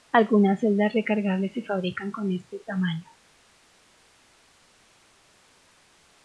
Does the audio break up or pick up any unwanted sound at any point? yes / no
no